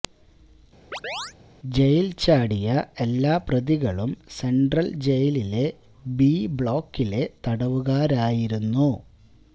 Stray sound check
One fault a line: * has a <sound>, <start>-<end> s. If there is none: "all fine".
* has a chirp, 0.9-1.3 s